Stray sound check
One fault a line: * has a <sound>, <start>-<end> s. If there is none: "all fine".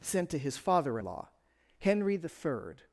all fine